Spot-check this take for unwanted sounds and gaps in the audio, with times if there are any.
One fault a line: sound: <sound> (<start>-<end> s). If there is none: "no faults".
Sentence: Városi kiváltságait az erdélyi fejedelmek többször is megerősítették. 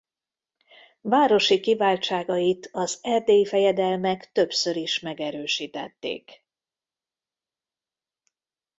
no faults